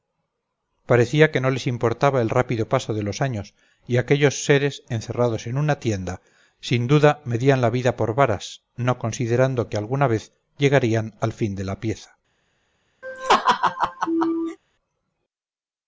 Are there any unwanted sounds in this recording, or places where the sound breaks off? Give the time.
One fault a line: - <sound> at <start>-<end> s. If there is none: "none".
- laugh at 13.0-14.6 s